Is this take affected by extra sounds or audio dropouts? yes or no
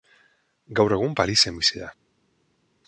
no